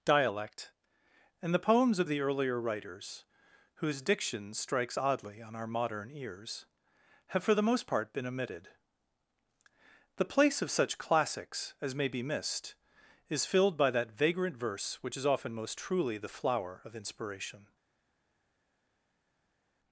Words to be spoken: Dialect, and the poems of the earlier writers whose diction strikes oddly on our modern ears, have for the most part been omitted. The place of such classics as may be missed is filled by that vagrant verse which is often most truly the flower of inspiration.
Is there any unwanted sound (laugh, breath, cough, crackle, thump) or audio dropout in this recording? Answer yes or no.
no